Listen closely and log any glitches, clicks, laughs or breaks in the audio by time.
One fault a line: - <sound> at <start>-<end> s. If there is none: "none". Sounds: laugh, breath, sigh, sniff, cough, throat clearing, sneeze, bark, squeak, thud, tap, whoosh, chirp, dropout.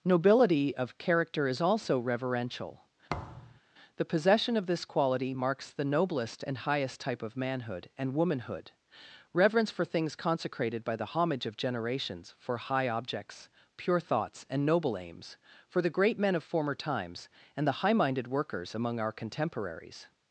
- thud at 3.1-3.6 s